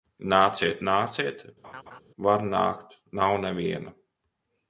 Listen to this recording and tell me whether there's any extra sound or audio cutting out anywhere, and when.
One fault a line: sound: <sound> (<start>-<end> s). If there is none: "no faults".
sound: laugh (1.6-2.0 s)